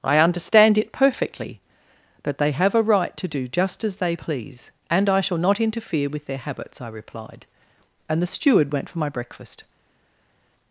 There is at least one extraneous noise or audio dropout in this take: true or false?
false